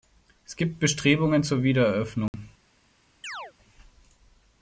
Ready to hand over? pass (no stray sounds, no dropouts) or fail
fail